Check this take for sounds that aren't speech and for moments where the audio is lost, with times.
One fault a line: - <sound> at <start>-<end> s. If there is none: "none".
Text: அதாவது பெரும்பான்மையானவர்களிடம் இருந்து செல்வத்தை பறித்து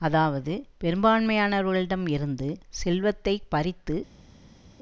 none